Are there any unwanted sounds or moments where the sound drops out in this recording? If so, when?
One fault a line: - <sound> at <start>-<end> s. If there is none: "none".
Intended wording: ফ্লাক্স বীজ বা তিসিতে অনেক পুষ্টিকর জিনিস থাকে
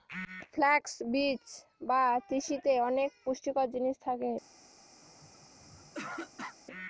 - throat clearing at 5.0-6.6 s